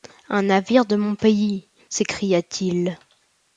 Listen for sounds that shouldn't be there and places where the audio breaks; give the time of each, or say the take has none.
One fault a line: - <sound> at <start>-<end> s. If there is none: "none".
none